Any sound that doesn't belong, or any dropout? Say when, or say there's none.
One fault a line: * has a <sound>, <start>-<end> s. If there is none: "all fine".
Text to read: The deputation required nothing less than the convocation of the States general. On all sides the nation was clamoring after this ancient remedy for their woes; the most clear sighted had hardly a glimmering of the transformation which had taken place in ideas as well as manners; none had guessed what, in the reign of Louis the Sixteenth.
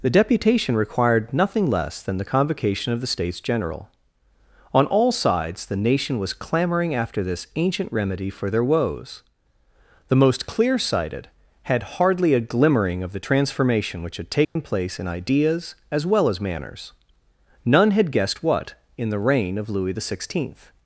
* has a dropout, 14.4-14.6 s